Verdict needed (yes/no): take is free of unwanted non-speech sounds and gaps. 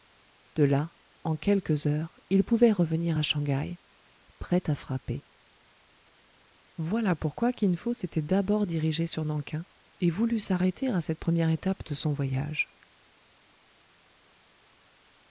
yes